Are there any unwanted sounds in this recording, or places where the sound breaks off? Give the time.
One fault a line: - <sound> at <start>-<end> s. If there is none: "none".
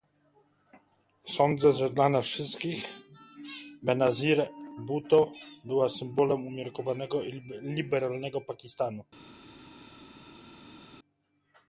none